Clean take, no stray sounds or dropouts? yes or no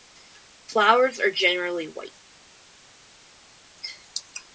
yes